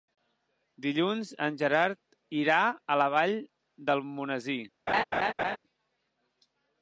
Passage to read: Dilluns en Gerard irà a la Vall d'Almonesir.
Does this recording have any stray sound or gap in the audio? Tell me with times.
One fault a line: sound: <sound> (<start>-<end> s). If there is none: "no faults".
sound: laugh (4.9-5.6 s)